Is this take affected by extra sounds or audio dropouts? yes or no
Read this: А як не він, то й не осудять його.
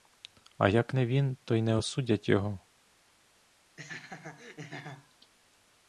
yes